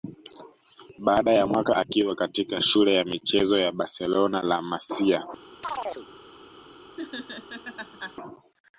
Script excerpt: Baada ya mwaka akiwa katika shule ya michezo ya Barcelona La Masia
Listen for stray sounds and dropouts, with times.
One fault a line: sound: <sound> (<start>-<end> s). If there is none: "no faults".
sound: chirp (5.6-6.1 s)
sound: laugh (7.0-8.2 s)